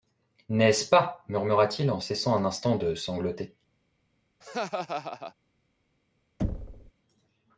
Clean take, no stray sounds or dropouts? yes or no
no